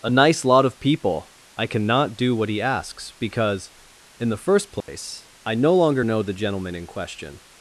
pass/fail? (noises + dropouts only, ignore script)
fail